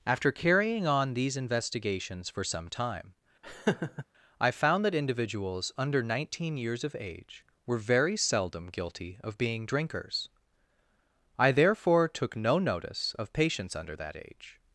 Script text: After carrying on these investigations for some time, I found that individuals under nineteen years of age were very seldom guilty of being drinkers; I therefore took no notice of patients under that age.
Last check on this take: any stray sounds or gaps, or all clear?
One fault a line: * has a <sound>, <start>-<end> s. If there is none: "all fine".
* has a laugh, 3.4-4.1 s